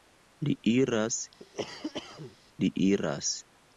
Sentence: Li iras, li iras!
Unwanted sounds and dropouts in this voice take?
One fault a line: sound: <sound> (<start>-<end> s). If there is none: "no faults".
sound: cough (1.4-2.4 s)